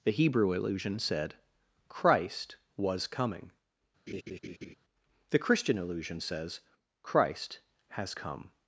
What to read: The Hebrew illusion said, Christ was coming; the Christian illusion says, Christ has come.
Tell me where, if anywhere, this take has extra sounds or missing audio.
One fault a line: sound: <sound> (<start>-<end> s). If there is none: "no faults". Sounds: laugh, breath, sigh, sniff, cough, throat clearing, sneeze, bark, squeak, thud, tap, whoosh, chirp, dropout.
sound: laugh (4.1-4.7 s)